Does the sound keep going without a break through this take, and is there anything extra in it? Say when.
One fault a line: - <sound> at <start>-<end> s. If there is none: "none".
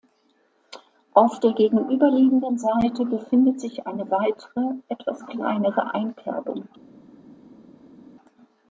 none